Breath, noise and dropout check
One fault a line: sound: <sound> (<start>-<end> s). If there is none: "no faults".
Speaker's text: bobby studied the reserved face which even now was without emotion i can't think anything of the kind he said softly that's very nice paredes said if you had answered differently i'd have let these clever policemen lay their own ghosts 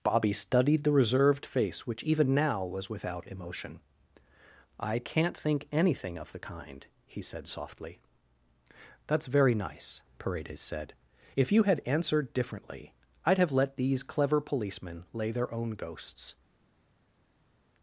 no faults